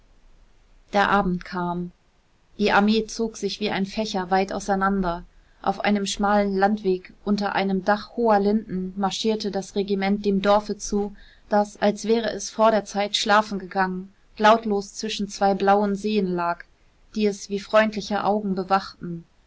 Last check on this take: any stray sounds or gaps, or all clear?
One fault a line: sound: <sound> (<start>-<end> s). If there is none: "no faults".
no faults